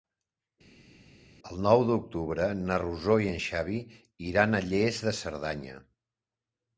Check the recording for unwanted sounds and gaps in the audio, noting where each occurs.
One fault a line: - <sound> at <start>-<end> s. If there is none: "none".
none